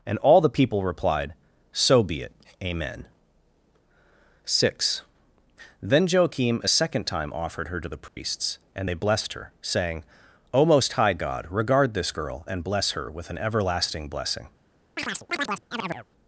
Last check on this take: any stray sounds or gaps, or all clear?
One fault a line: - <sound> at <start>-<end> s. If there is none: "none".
- dropout at 8.1-8.2 s
- chirp at 15.0-16.1 s